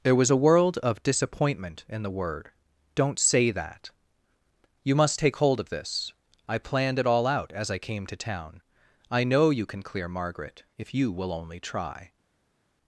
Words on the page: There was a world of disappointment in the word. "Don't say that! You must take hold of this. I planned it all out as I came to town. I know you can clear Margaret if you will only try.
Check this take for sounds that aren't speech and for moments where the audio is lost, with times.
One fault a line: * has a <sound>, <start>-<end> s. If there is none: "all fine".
all fine